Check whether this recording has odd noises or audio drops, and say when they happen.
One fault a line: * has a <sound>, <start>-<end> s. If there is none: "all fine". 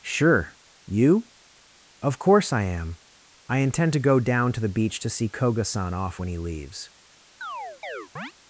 * has a chirp, 7.4-8.3 s